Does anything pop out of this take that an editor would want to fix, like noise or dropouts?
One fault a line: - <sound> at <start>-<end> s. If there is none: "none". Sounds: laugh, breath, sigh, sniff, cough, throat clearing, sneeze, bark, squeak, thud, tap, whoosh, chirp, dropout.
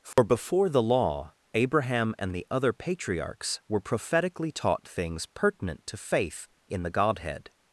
- dropout at 0.1-0.2 s